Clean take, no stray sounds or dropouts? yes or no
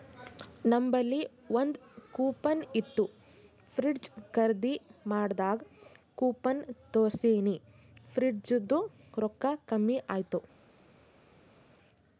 yes